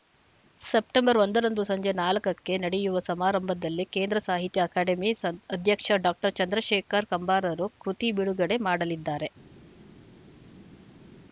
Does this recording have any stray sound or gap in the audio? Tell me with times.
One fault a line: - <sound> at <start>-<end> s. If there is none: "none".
none